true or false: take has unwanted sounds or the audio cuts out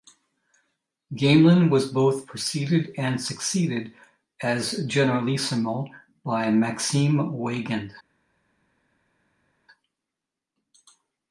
false